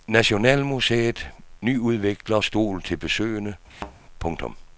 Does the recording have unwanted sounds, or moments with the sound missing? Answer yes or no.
yes